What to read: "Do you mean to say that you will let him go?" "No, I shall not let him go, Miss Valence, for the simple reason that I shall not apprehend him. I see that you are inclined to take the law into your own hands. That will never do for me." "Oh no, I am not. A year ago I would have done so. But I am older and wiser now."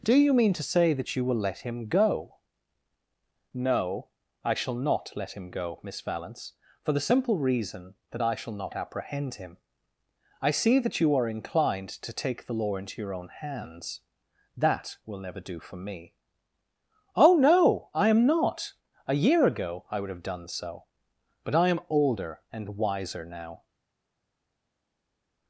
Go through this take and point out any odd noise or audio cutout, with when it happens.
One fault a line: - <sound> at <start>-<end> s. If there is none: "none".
none